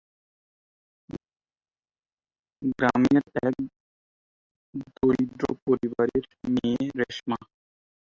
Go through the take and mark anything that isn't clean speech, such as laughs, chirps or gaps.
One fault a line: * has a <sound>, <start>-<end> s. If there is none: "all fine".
all fine